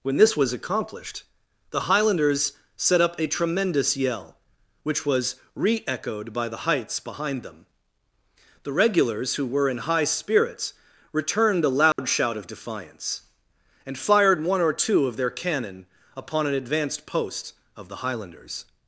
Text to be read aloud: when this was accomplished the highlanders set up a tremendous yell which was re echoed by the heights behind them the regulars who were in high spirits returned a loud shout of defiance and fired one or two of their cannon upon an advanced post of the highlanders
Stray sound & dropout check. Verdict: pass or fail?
fail